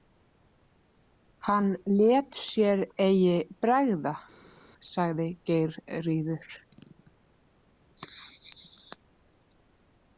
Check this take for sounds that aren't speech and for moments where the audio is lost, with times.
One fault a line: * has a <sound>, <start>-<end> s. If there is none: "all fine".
all fine